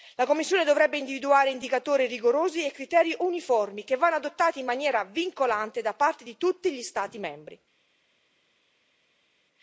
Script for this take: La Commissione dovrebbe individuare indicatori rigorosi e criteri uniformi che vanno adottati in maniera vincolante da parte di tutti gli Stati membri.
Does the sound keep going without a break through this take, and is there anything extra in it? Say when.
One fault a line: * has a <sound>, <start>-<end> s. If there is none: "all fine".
all fine